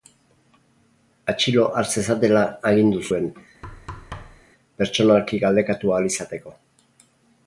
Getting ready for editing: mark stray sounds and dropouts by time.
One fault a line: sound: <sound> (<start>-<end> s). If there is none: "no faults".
sound: thud (3.6-4.5 s)